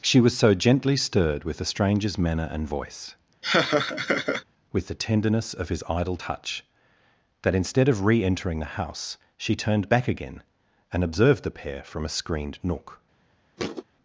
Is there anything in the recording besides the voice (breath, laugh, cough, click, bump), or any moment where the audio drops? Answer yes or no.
yes